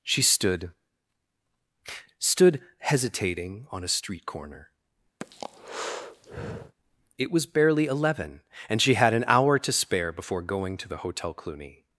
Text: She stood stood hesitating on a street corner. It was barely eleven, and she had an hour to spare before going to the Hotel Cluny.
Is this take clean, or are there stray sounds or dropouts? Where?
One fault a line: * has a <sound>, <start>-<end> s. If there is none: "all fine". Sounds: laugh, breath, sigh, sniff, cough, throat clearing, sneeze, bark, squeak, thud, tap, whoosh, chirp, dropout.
* has a breath, 5.2-6.8 s